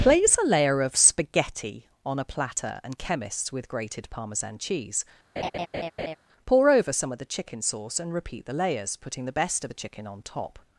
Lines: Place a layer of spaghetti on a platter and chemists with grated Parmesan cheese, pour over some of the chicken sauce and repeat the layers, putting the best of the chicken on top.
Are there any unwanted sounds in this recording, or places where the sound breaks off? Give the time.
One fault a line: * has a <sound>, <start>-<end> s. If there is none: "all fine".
* has a laugh, 5.4-6.2 s